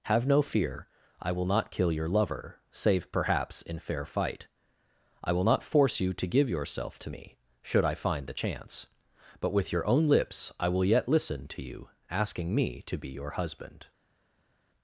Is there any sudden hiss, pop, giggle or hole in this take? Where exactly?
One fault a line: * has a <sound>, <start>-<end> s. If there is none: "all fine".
all fine